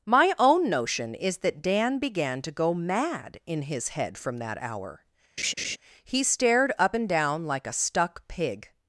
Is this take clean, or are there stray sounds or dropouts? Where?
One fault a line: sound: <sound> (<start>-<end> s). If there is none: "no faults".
sound: laugh (5.4-5.8 s)